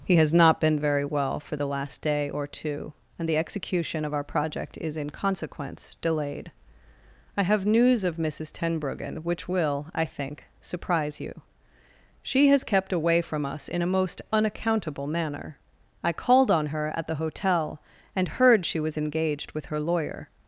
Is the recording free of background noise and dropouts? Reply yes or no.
yes